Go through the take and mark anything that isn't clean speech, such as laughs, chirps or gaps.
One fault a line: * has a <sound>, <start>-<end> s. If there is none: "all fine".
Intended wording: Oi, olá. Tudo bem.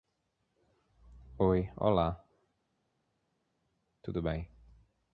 all fine